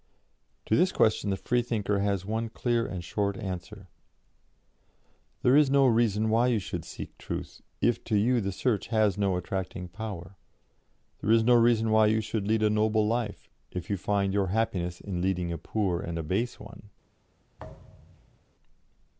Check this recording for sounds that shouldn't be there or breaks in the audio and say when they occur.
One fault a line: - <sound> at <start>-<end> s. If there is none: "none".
- thud at 17.6-18.4 s